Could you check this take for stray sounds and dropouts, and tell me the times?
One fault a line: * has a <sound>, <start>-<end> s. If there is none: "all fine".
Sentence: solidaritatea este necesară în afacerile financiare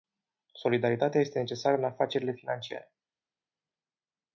all fine